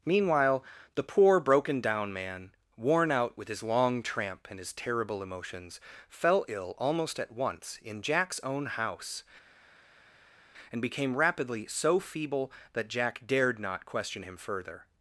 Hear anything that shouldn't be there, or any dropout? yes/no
no